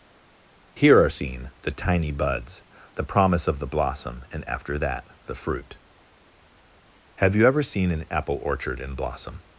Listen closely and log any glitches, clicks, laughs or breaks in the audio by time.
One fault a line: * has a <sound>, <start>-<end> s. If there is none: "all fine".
all fine